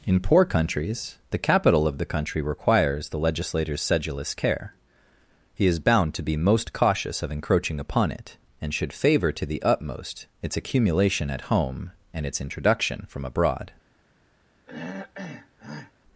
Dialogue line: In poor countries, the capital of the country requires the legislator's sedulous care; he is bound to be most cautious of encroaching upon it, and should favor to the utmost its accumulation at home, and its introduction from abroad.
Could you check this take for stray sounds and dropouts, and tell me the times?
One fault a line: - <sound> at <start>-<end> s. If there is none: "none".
- throat clearing at 14.7-15.9 s